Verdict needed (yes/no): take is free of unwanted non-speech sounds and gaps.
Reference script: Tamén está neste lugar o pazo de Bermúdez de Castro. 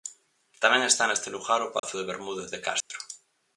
no